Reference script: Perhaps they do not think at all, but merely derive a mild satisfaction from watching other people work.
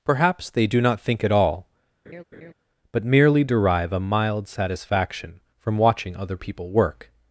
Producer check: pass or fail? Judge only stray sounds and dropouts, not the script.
fail